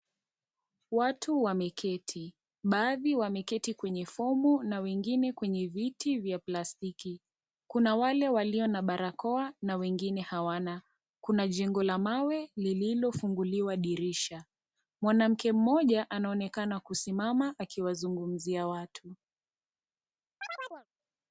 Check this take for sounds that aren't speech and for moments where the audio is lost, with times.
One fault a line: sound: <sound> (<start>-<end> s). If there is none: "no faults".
sound: chirp (20.4-20.9 s)